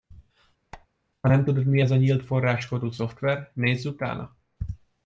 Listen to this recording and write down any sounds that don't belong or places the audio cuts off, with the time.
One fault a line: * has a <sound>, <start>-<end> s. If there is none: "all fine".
* has a squeak, 0.7-0.9 s